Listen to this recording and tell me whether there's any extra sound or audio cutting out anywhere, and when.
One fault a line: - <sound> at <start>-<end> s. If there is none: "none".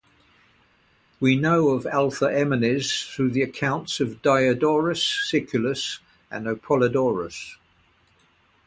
none